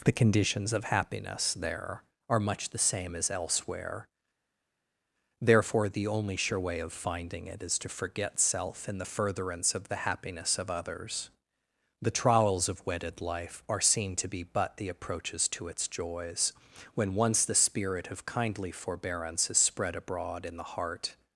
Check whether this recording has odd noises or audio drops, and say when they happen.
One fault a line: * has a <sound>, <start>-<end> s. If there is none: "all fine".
all fine